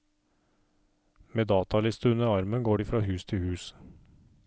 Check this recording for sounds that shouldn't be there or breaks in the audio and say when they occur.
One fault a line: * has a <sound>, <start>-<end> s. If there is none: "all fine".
all fine